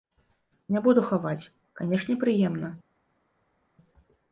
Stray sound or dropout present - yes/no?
no